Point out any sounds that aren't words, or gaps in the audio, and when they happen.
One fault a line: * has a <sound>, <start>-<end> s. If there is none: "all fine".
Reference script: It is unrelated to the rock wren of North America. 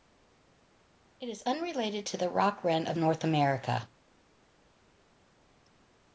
all fine